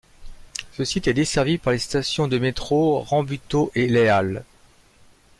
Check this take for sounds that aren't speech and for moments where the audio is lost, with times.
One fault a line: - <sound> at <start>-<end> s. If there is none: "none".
none